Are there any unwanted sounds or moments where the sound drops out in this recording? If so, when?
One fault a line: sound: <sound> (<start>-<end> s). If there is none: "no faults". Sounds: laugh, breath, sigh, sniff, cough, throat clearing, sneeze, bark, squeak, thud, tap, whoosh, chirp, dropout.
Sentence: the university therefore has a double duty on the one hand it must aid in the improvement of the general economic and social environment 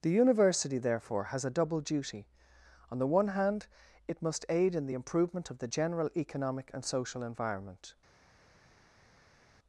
no faults